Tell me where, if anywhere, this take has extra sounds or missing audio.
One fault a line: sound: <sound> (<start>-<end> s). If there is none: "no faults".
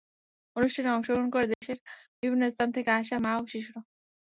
sound: dropout (1.5-1.6 s)